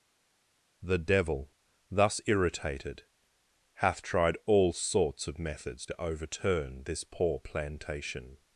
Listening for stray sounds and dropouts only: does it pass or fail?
pass